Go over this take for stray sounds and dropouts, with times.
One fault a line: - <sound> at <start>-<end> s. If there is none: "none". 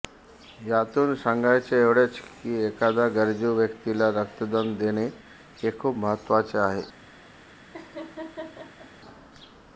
- laugh at 7.7-8.9 s